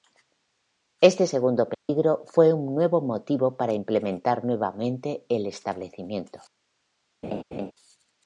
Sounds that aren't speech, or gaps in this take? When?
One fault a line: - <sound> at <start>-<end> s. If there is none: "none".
- dropout at 1.7-1.9 s
- laugh at 7.2-7.7 s